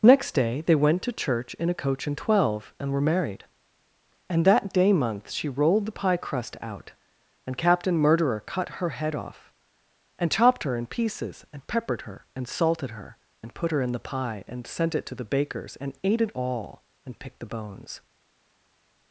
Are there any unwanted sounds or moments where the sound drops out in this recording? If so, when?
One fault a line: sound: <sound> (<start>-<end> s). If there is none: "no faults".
no faults